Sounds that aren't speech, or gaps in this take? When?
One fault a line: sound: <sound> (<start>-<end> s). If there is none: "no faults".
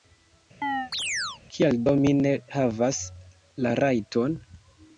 sound: chirp (0.6-1.4 s)